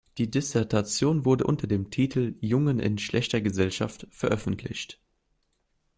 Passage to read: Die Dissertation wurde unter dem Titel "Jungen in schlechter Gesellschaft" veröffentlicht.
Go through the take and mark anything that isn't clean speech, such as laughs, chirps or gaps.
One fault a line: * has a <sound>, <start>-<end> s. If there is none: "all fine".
all fine